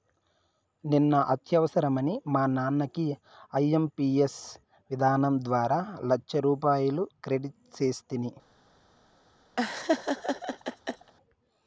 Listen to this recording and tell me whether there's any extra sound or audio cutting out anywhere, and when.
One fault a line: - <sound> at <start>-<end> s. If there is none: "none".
- laugh at 9.6-11.1 s